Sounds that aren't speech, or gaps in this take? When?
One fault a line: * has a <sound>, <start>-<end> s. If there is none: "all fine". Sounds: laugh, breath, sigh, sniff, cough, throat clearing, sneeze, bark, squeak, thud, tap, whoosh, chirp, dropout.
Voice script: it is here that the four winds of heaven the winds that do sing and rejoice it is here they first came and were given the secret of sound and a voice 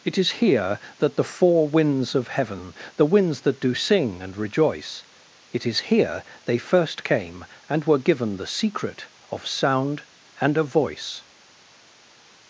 all fine